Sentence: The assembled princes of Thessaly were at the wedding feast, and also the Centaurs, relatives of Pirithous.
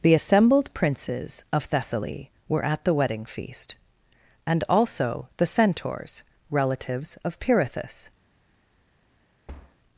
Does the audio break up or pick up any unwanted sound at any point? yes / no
yes